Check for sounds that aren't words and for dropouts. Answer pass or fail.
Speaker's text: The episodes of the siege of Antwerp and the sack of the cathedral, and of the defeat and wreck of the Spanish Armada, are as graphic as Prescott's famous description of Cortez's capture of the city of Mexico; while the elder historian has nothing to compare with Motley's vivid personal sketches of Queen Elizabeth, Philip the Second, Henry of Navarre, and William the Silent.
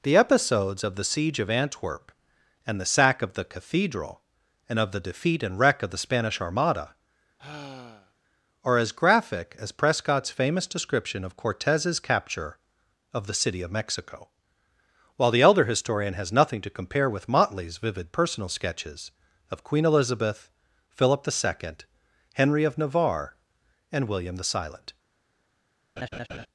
fail